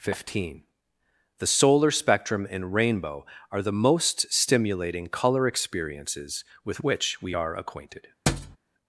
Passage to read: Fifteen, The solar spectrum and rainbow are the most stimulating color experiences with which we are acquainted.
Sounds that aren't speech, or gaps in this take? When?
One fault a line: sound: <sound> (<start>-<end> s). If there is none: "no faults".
sound: thud (8.3-8.6 s)